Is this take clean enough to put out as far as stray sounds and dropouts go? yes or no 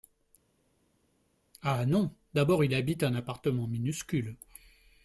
yes